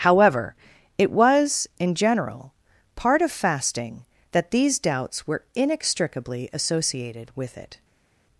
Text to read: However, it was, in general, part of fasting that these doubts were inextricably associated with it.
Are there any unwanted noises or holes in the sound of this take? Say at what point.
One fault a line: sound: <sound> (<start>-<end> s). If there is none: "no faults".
no faults